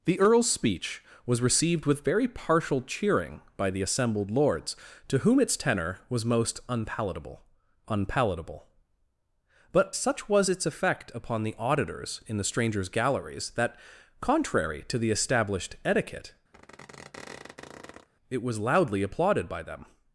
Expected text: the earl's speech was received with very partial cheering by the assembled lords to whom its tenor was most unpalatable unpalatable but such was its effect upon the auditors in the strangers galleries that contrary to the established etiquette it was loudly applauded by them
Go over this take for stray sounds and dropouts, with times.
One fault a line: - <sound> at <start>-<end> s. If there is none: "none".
- squeak at 16.5-18.1 s